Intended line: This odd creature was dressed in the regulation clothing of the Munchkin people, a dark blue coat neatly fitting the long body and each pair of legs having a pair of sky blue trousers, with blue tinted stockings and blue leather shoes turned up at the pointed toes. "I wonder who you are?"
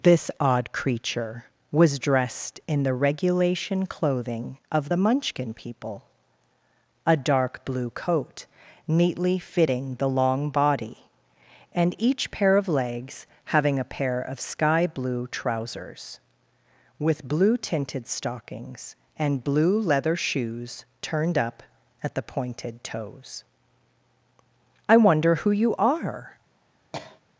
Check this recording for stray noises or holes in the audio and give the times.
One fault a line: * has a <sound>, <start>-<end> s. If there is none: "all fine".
* has a cough, 26.9-27.2 s